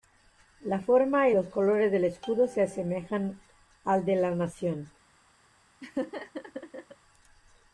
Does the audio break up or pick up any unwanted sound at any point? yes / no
yes